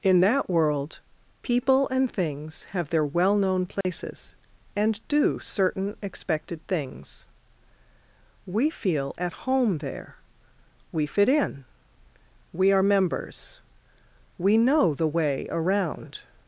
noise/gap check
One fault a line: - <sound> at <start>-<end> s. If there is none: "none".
- dropout at 3.8-3.8 s